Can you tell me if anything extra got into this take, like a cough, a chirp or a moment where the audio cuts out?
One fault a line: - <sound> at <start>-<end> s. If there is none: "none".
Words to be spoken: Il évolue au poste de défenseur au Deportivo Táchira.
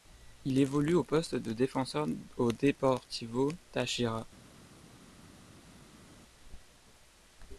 none